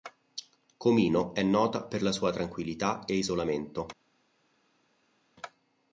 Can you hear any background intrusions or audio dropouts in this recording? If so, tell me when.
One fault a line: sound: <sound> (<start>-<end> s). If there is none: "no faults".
no faults